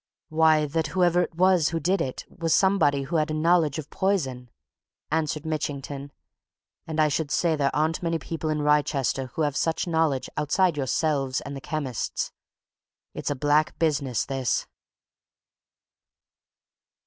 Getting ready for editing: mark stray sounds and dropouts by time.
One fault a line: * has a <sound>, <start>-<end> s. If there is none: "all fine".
all fine